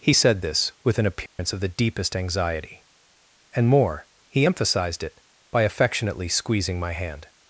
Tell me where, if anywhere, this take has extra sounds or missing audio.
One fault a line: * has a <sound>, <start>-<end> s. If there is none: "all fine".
* has a dropout, 1.3-1.4 s